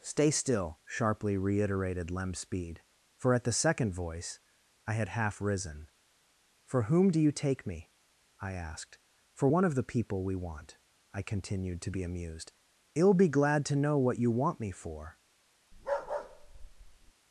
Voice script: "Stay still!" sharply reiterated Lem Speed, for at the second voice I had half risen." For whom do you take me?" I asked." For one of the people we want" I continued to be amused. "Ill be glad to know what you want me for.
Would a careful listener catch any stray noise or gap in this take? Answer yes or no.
yes